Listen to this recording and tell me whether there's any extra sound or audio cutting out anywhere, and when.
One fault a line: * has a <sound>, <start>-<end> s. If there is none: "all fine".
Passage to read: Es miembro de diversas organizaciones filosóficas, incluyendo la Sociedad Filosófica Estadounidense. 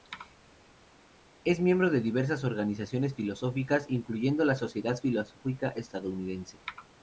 all fine